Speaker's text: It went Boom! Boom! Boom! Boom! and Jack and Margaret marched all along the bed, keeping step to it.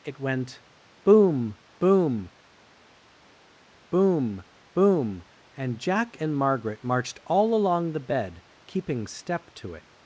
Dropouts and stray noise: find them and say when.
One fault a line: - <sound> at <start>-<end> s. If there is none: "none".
none